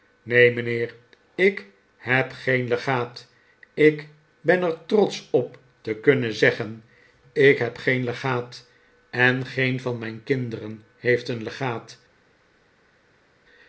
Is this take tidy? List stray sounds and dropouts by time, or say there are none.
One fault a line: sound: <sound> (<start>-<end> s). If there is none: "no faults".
no faults